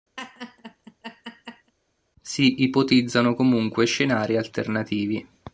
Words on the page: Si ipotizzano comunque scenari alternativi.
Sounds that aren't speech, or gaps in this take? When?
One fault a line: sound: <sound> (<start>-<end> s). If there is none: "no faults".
sound: laugh (0.2-1.7 s)